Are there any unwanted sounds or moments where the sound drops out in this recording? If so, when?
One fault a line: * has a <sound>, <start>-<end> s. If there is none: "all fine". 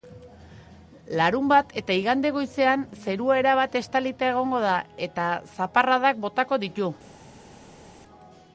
all fine